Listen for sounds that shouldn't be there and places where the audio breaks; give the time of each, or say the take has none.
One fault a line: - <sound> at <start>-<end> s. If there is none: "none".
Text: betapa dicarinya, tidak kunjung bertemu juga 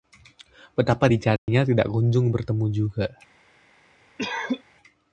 - dropout at 1.4-1.5 s
- cough at 4.2-4.6 s